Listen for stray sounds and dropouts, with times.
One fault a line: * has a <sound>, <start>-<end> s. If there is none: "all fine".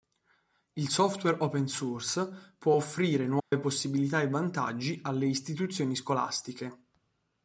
* has a dropout, 3.4-3.5 s